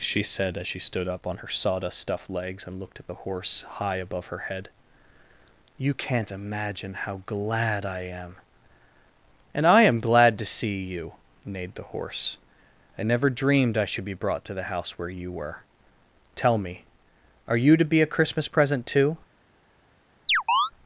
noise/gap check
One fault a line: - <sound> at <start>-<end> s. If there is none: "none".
- chirp at 20.3-20.7 s